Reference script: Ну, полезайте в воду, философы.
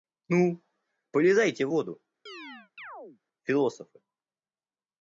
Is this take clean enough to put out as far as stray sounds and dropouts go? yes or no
no